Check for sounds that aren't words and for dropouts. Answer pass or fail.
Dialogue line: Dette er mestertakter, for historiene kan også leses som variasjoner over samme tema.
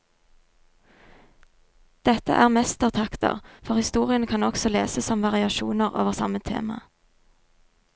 pass